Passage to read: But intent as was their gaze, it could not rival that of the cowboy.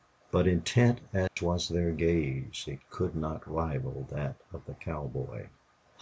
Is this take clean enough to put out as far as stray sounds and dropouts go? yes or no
no